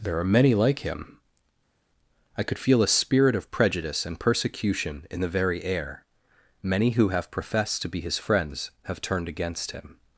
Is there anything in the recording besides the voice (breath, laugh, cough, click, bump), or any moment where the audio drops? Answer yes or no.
no